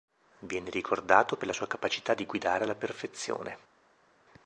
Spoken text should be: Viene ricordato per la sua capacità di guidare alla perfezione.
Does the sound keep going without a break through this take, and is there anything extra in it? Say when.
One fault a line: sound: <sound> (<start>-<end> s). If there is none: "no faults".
no faults